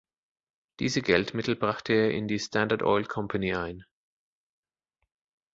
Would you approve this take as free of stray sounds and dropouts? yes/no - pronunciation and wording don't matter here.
yes